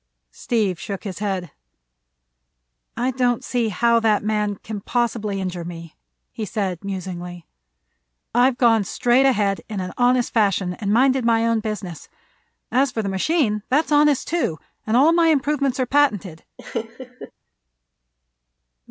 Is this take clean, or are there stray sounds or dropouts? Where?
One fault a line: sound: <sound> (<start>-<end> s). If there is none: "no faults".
sound: laugh (16.6-17.3 s)